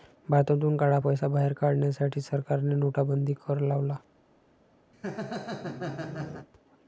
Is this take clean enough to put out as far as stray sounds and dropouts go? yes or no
no